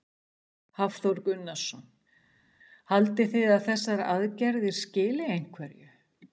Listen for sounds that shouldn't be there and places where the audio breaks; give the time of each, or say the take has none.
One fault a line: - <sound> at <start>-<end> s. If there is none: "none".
none